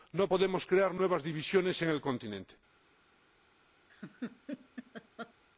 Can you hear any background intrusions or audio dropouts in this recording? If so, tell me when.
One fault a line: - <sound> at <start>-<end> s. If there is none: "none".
- laugh at 3.9-5.3 s